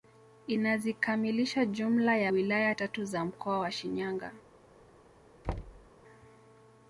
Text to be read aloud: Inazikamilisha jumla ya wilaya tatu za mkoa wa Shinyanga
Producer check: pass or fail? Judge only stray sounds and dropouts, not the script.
fail